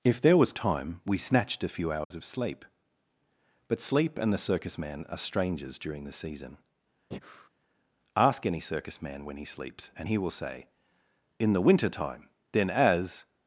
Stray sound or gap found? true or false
true